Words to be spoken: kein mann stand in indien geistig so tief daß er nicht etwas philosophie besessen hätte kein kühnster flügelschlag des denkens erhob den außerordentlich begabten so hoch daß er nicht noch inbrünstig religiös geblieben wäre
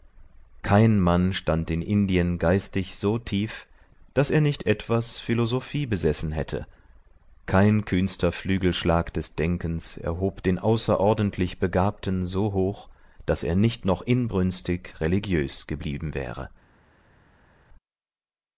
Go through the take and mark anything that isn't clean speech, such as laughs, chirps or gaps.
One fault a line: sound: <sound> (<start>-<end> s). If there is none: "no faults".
no faults